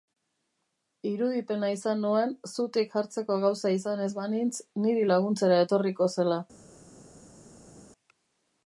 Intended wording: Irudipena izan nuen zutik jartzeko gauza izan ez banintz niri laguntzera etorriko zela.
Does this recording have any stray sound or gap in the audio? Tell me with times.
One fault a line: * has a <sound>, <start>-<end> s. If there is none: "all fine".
all fine